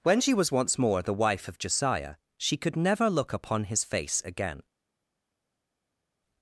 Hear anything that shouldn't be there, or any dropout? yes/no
no